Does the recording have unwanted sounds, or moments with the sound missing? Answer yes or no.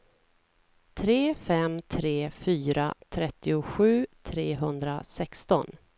no